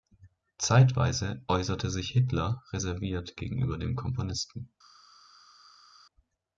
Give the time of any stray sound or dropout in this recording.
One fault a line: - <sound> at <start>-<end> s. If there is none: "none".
none